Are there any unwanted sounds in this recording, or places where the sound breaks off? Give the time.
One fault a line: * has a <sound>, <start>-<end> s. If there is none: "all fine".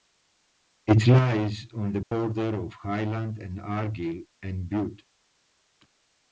* has a dropout, 2.0-2.1 s